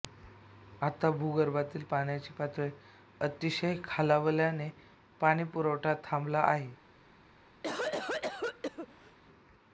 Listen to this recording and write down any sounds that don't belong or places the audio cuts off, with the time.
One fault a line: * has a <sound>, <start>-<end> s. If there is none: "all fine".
* has a cough, 7.6-9.2 s